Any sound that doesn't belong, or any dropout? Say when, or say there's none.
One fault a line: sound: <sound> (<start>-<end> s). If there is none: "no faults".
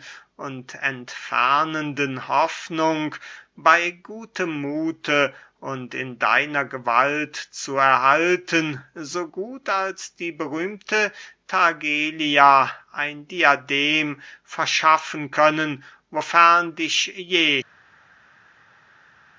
no faults